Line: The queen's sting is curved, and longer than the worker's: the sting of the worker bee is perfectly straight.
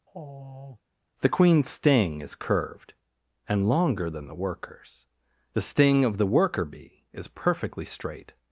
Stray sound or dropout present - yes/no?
yes